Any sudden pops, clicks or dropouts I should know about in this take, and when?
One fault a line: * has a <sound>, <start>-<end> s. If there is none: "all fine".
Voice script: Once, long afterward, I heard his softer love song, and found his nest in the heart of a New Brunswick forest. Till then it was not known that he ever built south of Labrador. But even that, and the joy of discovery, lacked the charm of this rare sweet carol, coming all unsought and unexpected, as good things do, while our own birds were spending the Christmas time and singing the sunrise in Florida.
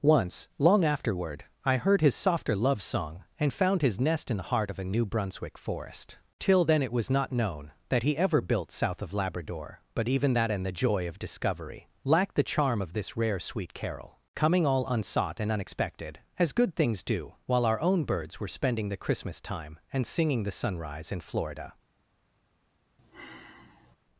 * has a sigh, 23.0-24.0 s